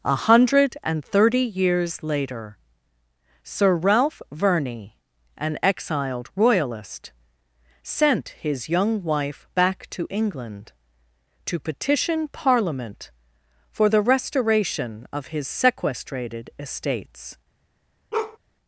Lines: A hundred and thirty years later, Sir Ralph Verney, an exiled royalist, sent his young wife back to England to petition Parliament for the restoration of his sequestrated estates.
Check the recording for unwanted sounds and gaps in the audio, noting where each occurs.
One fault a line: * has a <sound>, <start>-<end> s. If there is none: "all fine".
* has a bark, 18.1-18.4 s